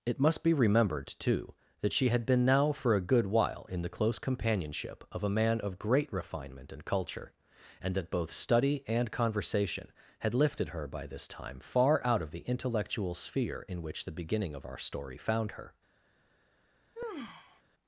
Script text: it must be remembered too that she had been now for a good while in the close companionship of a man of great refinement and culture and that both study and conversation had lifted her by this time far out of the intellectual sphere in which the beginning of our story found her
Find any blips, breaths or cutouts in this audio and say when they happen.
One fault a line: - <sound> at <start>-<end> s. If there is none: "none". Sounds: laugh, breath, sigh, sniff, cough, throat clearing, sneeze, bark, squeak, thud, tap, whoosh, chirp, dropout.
- sigh at 16.9-17.6 s